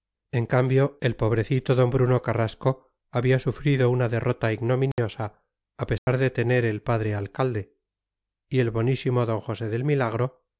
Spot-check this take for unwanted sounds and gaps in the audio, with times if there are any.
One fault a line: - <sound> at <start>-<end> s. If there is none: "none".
- dropout at 4.9-5.0 s
- dropout at 6.0-6.1 s